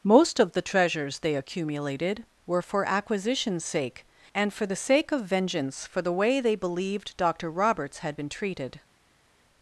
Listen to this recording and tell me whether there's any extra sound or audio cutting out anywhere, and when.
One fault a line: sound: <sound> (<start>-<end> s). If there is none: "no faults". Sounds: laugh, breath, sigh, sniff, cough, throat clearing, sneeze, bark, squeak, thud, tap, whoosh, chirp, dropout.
no faults